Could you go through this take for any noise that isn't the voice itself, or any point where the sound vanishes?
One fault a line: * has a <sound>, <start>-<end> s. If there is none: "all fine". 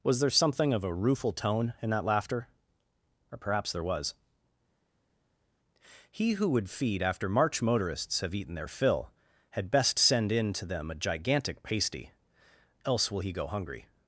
all fine